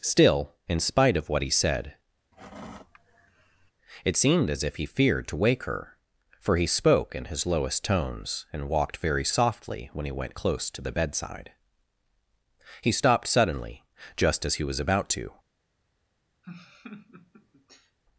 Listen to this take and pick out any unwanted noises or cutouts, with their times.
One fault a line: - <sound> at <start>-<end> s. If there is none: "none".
- sigh at 2.3-3.7 s
- laugh at 16.4-18.0 s